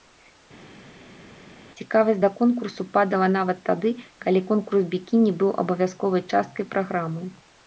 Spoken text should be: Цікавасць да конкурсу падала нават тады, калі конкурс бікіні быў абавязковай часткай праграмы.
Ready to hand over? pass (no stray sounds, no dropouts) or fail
pass